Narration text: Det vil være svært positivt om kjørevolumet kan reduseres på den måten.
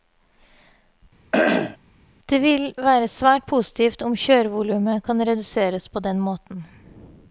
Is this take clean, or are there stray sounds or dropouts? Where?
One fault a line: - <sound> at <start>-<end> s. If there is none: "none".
- throat clearing at 1.3-1.8 s